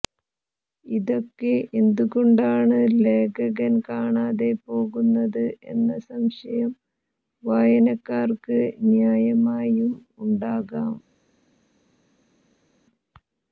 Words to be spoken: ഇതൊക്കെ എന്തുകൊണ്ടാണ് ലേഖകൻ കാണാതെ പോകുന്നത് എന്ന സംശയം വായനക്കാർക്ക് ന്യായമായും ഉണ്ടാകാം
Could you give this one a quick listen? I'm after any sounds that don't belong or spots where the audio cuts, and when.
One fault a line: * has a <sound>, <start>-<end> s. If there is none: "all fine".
all fine